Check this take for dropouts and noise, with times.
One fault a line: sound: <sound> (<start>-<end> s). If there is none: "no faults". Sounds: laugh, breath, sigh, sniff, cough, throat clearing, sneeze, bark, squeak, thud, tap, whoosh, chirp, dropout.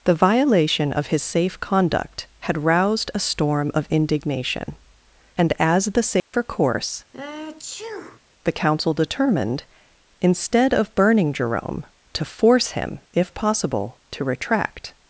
sound: dropout (6.2-6.3 s)
sound: sneeze (7.1-8.2 s)